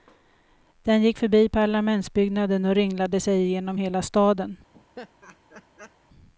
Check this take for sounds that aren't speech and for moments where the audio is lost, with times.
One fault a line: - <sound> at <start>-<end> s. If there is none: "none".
- laugh at 4.7-6.0 s